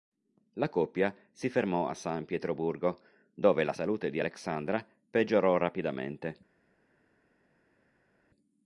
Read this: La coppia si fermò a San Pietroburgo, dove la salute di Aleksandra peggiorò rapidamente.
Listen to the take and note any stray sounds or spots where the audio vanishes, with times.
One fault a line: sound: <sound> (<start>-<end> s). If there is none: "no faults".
no faults